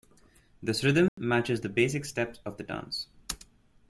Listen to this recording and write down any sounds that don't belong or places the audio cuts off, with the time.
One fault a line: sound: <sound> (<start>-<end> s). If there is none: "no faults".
sound: dropout (1.1-1.2 s)